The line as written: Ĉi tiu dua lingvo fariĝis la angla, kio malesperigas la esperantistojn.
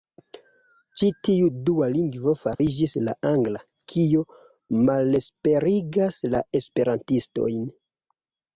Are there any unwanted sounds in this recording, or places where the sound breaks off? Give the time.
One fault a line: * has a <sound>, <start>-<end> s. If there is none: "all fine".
* has a dropout, 2.6-2.6 s